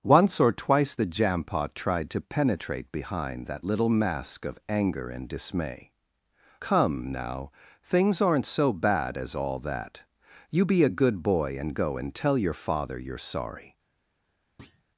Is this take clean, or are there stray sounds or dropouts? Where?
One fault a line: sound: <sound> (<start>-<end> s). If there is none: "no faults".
sound: thud (14.6-14.8 s)